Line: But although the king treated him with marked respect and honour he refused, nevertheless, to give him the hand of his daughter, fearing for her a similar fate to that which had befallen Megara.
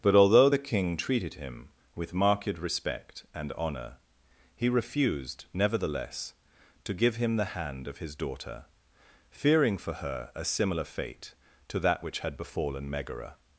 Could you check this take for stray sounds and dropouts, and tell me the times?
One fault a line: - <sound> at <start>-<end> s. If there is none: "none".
none